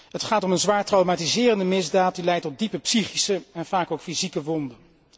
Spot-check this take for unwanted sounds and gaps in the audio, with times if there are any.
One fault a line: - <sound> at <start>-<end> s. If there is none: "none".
none